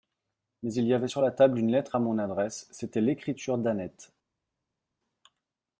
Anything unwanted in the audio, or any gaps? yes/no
no